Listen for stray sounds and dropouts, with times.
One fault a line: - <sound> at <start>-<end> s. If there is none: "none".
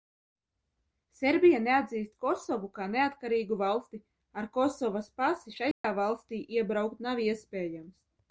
- dropout at 5.7-5.8 s